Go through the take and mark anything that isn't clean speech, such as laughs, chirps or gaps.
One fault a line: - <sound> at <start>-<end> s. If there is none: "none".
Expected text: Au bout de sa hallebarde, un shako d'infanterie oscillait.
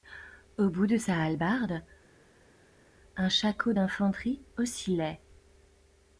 none